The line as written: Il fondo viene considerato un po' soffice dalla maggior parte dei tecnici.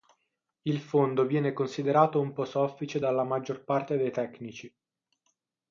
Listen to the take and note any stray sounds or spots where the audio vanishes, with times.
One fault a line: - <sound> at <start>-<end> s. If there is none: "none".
none